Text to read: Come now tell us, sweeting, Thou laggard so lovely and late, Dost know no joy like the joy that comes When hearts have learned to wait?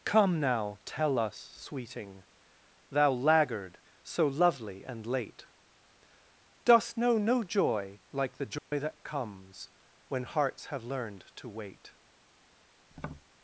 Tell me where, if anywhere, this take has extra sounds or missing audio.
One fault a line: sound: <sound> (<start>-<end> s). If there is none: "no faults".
sound: dropout (8.6-8.7 s)
sound: tap (12.9-13.3 s)